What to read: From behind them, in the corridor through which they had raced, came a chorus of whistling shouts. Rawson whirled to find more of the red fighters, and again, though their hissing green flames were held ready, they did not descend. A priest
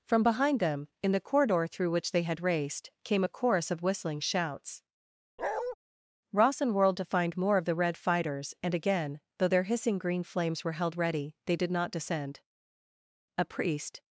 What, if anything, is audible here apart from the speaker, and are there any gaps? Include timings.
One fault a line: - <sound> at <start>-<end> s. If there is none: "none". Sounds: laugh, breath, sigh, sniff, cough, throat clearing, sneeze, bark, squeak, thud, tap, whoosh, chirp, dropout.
- bark at 5.4-5.8 s